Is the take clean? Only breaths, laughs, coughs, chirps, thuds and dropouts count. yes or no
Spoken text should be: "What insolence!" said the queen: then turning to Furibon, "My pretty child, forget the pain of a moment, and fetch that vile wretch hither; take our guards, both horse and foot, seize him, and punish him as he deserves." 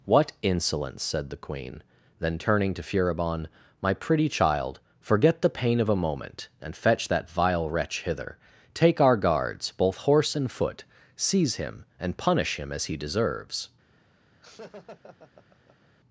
no